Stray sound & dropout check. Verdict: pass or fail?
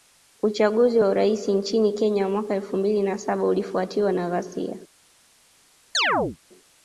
fail